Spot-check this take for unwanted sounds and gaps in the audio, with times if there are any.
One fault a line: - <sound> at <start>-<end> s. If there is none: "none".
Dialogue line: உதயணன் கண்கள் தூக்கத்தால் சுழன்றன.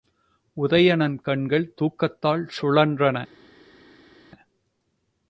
none